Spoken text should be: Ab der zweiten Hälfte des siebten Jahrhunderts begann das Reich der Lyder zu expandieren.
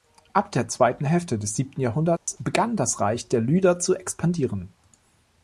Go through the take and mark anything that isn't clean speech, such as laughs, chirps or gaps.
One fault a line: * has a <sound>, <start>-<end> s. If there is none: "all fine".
* has a dropout, 2.2-2.3 s